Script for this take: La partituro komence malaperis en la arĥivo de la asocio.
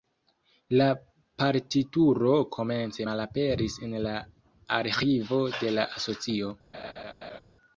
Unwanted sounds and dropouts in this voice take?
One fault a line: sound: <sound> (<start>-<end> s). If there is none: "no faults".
sound: laugh (6.7-7.4 s)